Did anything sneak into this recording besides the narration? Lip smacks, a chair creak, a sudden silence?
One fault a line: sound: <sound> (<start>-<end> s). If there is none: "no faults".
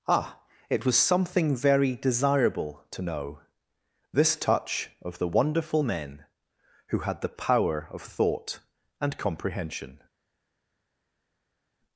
no faults